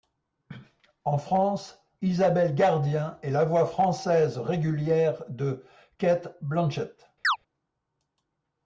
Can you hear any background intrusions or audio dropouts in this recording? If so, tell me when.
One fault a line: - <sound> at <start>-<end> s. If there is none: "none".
- chirp at 7.2-7.4 s